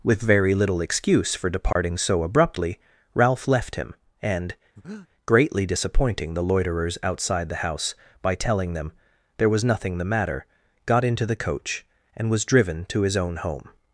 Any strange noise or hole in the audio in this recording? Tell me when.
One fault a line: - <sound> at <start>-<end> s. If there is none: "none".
- dropout at 1.7-1.8 s
- breath at 4.8-5.1 s